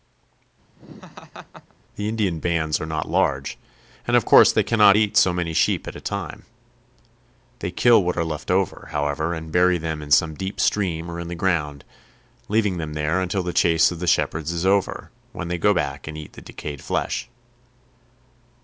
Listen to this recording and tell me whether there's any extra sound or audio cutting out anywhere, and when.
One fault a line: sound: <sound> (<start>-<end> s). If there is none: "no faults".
sound: laugh (0.8-1.7 s)